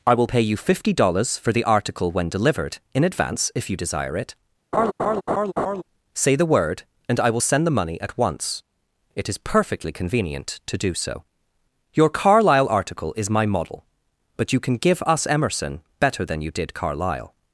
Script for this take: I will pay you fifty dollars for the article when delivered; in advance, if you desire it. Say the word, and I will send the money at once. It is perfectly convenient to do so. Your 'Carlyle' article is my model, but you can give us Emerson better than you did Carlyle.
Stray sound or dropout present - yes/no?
yes